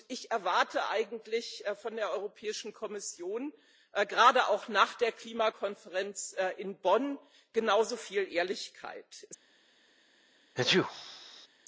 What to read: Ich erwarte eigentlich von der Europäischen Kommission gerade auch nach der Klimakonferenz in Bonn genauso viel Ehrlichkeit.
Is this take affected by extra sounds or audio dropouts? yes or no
yes